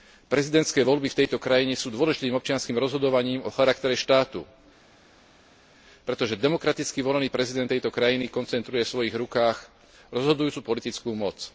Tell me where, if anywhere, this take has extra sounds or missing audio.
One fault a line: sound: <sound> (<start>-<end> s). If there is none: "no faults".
no faults